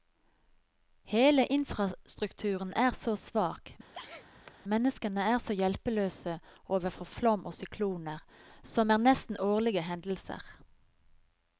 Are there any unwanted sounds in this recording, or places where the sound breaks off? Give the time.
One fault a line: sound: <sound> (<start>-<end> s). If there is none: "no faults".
sound: sneeze (3.8-4.5 s)